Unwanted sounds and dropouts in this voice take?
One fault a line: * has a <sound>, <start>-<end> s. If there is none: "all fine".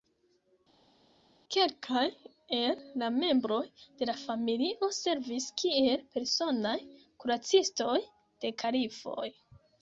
all fine